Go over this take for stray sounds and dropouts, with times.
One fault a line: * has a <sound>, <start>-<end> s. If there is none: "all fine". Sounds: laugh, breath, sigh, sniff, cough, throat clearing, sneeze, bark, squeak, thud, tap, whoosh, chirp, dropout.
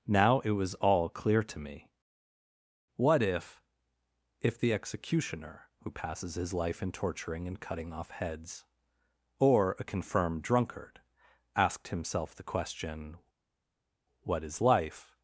all fine